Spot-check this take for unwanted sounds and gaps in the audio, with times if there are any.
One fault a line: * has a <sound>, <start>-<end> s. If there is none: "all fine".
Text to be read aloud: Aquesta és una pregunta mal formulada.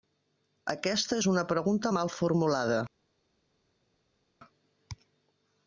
all fine